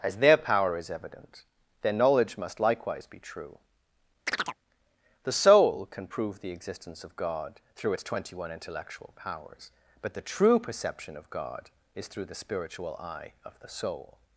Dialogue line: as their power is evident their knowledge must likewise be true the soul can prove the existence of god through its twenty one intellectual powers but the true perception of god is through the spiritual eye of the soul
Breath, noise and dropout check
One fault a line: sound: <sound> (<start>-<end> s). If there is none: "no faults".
sound: chirp (4.3-4.6 s)